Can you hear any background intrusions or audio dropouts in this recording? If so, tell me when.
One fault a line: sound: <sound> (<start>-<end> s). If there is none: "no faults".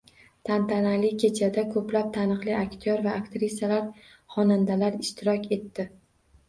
no faults